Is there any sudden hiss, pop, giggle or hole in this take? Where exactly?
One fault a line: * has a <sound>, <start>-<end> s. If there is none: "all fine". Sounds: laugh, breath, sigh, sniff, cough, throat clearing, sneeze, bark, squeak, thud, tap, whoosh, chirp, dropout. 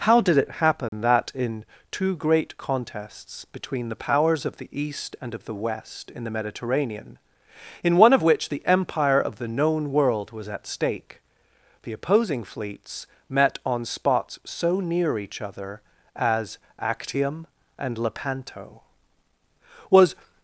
* has a dropout, 0.9-0.9 s